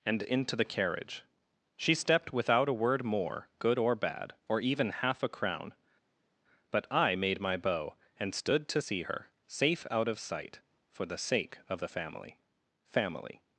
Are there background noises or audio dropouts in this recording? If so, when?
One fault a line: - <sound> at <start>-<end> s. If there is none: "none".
none